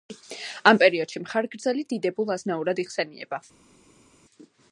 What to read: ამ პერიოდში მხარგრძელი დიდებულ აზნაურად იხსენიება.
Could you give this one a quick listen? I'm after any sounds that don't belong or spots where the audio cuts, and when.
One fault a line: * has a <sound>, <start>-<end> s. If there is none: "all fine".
all fine